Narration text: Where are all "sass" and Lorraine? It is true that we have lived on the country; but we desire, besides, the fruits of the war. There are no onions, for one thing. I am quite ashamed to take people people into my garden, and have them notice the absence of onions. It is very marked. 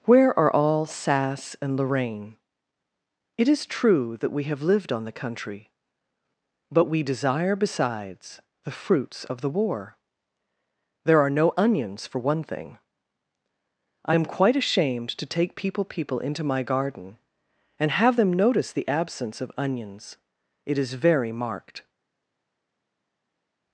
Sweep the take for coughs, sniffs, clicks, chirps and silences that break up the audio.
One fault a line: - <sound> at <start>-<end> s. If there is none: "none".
none